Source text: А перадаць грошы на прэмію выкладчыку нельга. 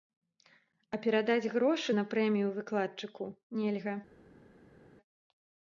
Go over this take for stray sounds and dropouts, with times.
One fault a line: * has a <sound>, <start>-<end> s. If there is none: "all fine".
all fine